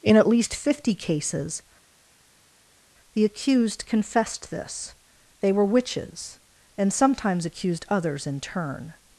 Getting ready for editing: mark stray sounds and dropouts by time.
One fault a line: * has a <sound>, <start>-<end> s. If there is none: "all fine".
all fine